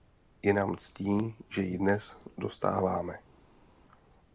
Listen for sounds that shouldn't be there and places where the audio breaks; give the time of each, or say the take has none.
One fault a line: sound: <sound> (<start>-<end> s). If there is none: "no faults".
no faults